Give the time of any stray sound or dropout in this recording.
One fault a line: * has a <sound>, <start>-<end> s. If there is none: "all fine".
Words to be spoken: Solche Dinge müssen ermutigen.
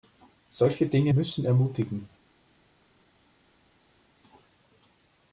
all fine